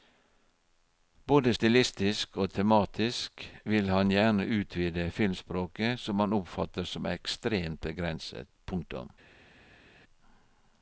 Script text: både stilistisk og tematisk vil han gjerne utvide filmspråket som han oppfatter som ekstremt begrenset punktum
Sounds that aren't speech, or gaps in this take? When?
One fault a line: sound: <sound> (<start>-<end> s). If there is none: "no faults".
no faults